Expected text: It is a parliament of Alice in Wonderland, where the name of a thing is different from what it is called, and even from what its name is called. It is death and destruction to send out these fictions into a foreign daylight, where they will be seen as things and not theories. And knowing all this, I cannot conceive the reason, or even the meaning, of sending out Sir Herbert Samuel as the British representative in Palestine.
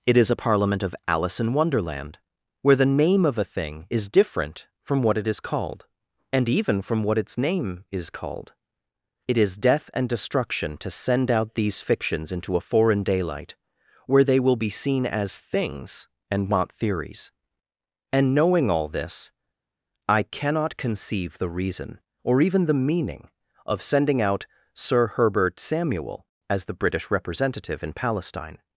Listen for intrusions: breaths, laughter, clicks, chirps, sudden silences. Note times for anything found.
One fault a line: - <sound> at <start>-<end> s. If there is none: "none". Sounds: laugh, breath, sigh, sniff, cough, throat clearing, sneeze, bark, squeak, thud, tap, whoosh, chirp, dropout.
none